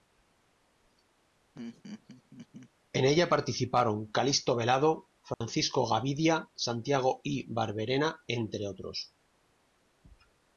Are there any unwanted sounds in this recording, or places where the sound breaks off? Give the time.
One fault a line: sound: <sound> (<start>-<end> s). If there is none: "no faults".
sound: laugh (1.5-2.7 s)
sound: dropout (5.3-5.4 s)